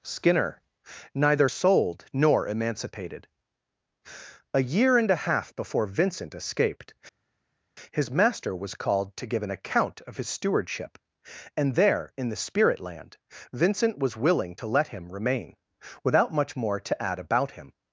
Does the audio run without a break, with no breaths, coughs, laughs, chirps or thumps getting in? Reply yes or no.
yes